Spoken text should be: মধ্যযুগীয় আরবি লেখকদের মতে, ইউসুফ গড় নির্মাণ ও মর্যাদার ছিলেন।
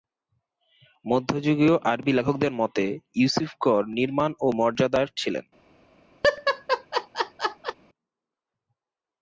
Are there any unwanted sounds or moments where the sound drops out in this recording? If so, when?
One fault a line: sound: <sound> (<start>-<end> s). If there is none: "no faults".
sound: laugh (6.2-7.7 s)